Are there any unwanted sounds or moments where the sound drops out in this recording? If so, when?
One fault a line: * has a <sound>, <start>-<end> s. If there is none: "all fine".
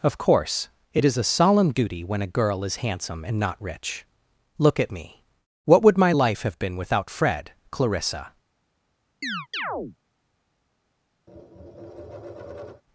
* has a chirp, 9.2-10.0 s
* has a tap, 11.3-12.8 s